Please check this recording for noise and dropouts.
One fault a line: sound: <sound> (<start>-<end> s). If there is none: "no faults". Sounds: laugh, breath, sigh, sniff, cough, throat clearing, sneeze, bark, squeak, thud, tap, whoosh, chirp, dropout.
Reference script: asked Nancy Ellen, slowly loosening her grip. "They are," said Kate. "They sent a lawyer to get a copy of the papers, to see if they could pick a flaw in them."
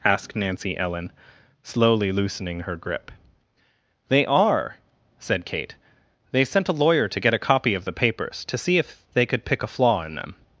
no faults